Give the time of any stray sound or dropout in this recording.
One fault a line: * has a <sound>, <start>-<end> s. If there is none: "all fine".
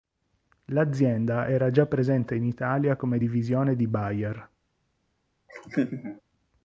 * has a laugh, 5.5-6.2 s